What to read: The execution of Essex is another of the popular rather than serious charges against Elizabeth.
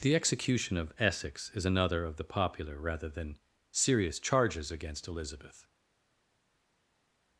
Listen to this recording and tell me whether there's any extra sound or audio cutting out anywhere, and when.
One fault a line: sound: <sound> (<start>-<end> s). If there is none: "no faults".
no faults